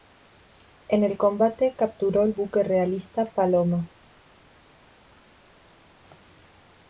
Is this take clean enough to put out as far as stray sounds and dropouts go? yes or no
yes